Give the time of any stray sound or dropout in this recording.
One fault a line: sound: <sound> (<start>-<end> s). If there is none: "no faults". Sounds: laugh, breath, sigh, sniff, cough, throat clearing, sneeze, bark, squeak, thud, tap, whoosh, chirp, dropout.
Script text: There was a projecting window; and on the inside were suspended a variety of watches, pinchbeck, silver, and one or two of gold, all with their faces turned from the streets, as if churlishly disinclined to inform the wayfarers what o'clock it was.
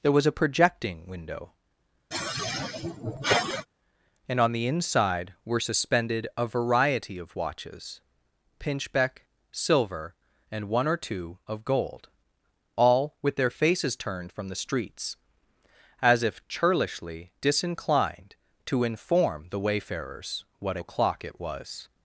sound: sigh (2.1-3.7 s)